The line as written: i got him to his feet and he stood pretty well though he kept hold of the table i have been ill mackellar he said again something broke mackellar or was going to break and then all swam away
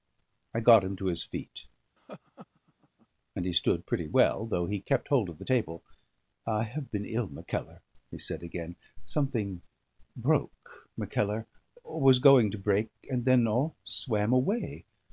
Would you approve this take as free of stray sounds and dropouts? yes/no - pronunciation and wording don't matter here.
no